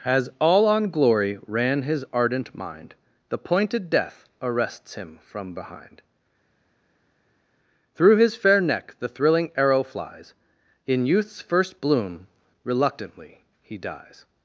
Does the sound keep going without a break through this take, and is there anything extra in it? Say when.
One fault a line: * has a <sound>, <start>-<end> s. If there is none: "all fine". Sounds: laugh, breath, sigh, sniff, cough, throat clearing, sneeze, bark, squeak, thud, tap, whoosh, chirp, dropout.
all fine